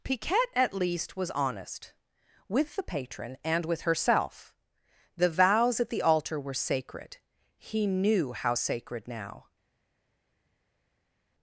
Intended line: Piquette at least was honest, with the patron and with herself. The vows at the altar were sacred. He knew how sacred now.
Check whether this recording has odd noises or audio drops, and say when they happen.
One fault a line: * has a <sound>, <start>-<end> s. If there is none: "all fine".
all fine